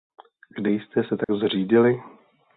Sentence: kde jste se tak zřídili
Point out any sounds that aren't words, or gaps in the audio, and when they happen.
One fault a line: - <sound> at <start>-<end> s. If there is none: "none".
- dropout at 1.2-1.3 s